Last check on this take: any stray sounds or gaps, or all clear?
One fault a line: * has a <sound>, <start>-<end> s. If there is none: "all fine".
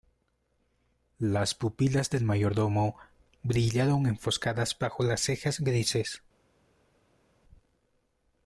all fine